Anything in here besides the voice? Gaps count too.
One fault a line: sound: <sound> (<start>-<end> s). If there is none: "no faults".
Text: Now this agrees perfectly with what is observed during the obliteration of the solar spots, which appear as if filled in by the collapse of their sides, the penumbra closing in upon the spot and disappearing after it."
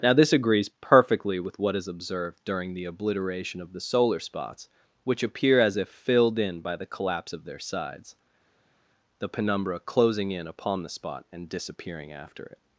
no faults